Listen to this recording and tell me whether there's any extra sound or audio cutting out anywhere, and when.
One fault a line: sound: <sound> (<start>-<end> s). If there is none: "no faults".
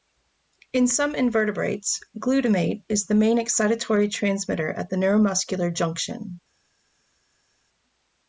no faults